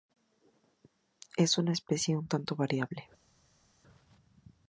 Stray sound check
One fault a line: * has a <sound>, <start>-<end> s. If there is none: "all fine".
all fine